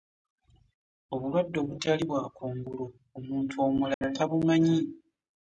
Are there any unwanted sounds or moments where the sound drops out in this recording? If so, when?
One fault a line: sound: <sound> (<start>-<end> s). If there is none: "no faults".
sound: dropout (3.9-4.0 s)